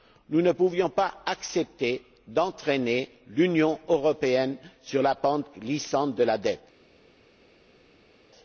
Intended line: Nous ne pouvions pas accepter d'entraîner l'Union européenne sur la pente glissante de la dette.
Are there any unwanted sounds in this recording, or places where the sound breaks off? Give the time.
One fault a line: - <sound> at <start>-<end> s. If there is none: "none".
none